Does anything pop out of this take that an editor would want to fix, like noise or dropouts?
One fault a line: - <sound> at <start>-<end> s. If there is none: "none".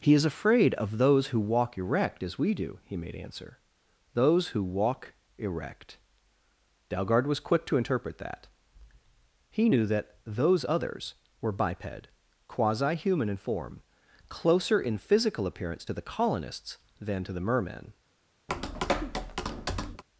- tap at 18.5-20.0 s